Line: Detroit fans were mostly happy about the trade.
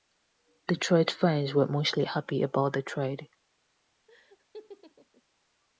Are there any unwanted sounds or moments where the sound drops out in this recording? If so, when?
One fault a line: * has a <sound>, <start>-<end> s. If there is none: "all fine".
* has a laugh, 4.1-5.2 s